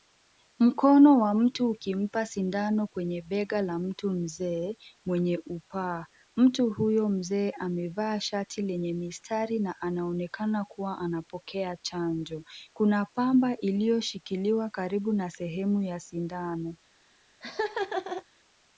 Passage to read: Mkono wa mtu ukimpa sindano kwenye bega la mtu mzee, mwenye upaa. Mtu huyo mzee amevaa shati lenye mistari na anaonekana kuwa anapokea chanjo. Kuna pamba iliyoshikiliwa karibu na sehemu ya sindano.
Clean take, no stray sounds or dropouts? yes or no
no